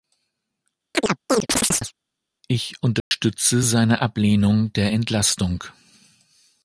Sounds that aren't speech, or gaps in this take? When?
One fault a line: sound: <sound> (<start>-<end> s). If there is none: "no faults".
sound: chirp (0.9-1.9 s)
sound: dropout (3.0-3.1 s)